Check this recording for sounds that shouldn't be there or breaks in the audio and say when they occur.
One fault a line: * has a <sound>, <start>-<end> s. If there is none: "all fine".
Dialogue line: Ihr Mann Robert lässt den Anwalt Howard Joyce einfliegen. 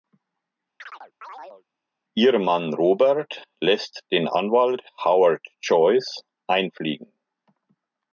* has a chirp, 0.8-1.6 s